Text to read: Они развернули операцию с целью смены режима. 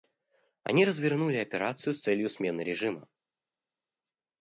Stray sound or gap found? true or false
false